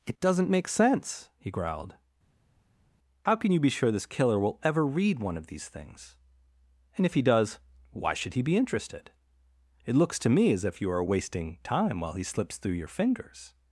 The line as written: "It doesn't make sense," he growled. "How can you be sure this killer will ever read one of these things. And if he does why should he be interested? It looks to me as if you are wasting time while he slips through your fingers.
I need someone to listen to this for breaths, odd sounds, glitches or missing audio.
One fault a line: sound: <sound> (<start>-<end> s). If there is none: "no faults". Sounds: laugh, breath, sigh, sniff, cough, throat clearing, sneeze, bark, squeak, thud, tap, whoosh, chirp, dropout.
no faults